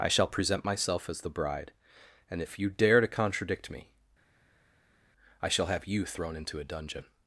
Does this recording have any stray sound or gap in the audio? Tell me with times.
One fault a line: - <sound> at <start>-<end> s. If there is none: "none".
none